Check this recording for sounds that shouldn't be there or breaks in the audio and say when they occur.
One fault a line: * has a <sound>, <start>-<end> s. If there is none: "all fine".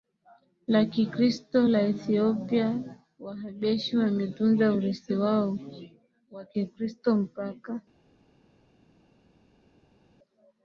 all fine